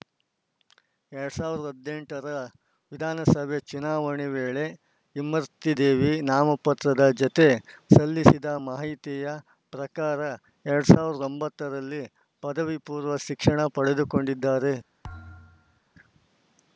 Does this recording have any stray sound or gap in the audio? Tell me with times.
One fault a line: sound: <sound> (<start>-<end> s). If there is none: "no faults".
sound: thud (15.0-15.8 s)